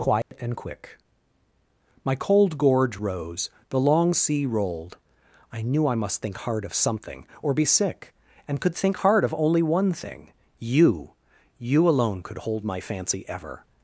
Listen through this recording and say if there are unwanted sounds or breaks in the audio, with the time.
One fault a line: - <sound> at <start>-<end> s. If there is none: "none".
- dropout at 0.2-0.3 s